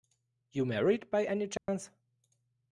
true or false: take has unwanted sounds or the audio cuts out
true